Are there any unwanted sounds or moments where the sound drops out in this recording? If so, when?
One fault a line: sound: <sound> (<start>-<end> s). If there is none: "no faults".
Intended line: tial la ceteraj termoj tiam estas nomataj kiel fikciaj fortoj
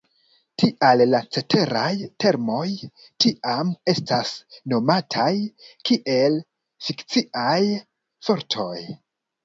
no faults